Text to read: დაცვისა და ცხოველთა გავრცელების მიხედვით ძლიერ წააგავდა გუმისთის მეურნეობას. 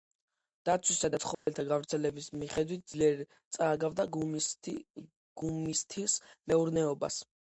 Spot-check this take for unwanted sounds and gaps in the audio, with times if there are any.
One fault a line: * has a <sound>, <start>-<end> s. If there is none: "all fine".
* has a dropout, 1.3-1.5 s